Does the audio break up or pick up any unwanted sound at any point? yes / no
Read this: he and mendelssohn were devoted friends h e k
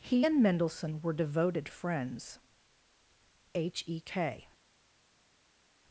no